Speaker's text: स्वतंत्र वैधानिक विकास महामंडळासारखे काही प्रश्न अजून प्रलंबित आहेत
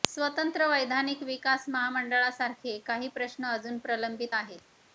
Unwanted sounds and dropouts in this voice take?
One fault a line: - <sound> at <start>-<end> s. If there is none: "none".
none